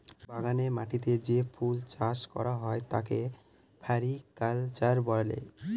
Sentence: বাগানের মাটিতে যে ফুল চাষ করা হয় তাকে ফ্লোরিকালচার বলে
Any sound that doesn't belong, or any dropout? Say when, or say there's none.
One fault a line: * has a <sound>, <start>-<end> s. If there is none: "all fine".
all fine